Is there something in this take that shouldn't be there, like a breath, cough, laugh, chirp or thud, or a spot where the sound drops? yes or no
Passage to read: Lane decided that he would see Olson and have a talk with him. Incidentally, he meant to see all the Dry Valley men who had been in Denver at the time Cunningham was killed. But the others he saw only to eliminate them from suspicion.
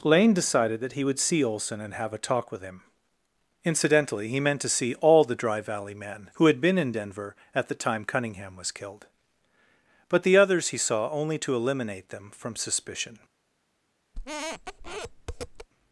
yes